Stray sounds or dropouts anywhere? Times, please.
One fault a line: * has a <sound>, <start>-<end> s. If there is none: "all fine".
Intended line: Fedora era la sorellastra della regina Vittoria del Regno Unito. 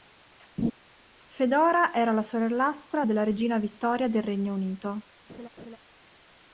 * has a laugh, 0.6-0.7 s
* has a laugh, 5.3-5.8 s